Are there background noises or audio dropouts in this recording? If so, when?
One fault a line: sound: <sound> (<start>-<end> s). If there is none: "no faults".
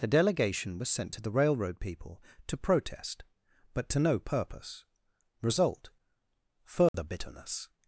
sound: dropout (6.9-6.9 s)